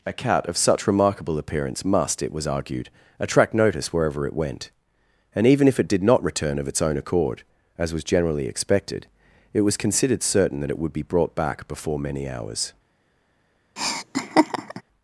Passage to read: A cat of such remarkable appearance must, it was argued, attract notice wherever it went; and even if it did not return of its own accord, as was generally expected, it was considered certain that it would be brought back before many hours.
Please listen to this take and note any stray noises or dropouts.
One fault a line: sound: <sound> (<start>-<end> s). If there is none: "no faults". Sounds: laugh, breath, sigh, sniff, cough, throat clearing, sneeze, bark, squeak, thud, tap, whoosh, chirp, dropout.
sound: laugh (13.8-14.8 s)